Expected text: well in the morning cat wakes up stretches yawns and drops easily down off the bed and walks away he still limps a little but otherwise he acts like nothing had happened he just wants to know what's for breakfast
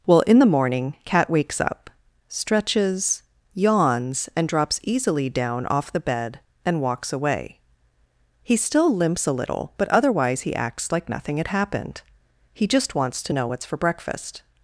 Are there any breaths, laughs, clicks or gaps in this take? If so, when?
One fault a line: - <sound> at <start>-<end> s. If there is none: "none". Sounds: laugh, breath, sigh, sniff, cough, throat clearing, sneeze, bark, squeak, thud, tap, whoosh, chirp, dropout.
none